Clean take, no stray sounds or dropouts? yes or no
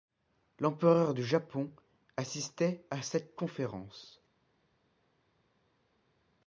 yes